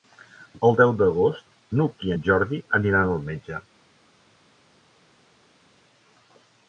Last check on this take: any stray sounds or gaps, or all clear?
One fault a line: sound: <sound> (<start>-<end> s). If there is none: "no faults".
no faults